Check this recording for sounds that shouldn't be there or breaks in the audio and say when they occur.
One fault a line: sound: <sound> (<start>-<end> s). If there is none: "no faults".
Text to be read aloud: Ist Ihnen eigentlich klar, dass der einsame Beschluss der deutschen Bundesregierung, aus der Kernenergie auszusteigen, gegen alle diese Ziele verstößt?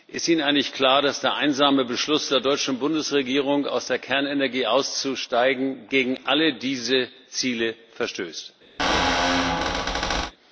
sound: squeak (8.8-10.3 s)